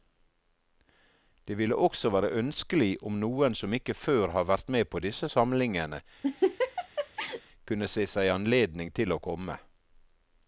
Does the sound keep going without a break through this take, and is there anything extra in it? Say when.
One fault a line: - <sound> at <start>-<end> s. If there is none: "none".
- laugh at 6.2-7.4 s